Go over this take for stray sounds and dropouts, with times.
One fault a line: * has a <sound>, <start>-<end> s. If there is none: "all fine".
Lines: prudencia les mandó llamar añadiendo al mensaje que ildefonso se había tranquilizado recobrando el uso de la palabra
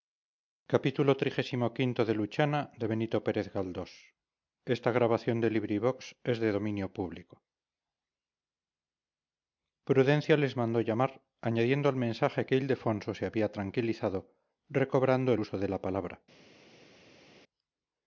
all fine